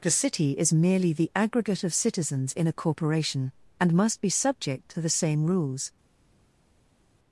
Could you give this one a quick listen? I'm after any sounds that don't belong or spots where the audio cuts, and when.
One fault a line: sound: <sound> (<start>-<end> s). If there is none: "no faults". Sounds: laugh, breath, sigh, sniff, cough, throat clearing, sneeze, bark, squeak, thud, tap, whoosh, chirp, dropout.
no faults